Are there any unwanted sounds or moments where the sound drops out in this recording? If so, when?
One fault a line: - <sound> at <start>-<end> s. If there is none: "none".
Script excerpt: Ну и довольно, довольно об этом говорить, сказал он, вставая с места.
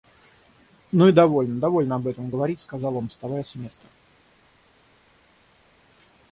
none